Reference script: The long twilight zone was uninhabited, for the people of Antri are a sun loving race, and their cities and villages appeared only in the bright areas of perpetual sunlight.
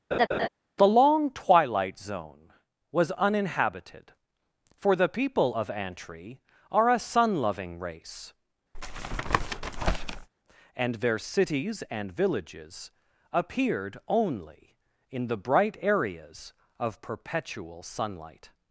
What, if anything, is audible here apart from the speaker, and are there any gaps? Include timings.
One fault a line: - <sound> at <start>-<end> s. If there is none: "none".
- laugh at 0.1-0.5 s
- tap at 8.7-10.3 s